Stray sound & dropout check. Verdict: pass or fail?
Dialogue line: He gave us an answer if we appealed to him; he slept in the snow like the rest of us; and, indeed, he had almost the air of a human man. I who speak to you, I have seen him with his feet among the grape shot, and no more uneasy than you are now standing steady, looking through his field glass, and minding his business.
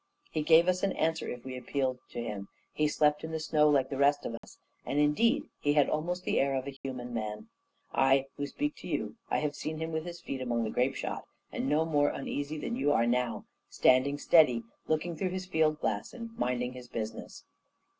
fail